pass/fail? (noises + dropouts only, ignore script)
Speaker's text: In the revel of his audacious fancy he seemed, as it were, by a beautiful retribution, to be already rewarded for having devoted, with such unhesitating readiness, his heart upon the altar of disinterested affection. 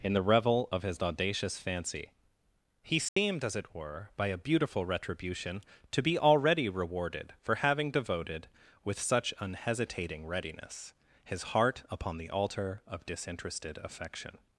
fail